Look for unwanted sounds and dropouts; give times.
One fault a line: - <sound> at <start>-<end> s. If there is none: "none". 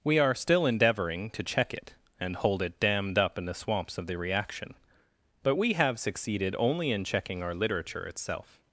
none